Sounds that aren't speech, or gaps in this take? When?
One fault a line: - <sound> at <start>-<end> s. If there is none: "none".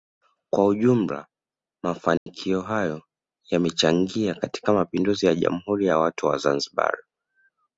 - dropout at 2.2-2.3 s